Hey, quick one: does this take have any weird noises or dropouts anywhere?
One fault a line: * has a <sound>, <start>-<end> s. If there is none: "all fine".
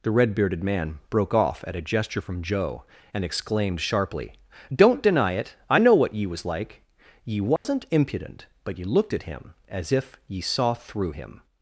* has a dropout, 7.6-7.6 s